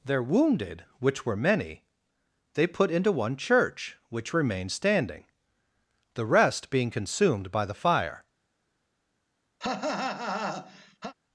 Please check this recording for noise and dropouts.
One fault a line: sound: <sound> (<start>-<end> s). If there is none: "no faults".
sound: cough (9.6-11.1 s)